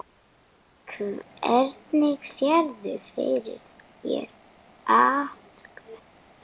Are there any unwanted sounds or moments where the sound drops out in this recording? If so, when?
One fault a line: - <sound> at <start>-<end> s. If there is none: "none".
none